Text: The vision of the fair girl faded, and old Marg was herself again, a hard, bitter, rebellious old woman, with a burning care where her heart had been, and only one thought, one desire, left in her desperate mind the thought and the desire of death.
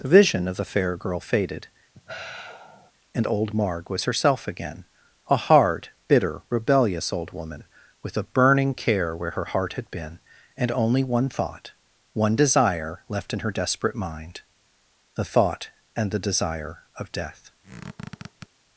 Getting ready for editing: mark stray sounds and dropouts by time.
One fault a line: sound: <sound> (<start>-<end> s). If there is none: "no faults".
sound: sigh (1.9-2.9 s)
sound: squeak (17.6-18.5 s)